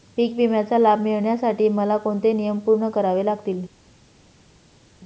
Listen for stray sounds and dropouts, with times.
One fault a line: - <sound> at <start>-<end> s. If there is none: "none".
none